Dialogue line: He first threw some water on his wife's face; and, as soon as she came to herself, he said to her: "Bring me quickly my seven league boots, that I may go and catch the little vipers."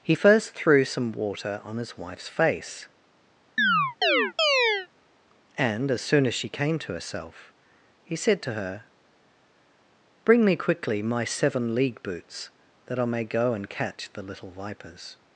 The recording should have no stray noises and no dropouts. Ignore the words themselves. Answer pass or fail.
fail